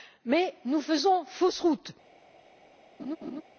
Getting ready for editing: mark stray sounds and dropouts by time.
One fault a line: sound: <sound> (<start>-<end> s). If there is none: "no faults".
sound: laugh (3.0-3.4 s)